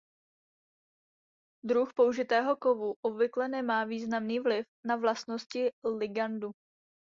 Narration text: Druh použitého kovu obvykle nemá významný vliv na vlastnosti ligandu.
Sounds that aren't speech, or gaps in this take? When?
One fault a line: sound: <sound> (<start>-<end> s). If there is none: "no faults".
no faults